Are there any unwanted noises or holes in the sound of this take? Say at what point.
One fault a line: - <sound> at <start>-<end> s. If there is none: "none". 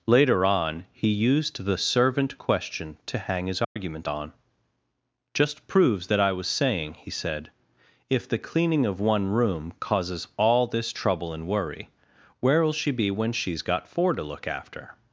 - dropout at 3.6-3.8 s